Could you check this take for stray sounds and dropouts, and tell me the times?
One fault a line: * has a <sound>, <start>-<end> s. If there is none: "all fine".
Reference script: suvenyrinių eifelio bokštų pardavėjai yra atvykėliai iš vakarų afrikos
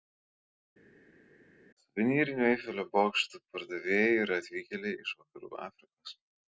all fine